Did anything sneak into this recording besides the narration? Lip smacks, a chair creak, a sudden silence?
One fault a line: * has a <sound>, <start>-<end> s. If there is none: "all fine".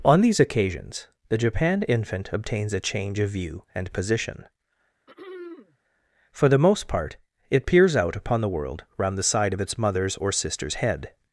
* has a throat clearing, 5.1-5.8 s